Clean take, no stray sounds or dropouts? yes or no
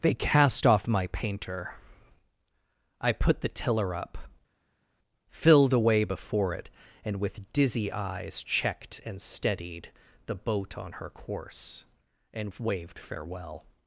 yes